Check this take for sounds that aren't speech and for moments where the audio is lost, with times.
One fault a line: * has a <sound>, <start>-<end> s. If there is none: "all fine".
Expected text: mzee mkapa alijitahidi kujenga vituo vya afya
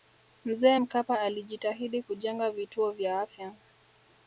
all fine